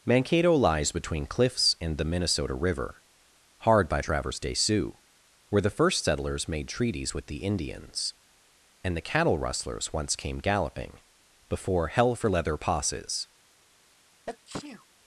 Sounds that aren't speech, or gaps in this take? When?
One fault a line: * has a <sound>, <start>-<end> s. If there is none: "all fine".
* has a sneeze, 14.3-14.9 s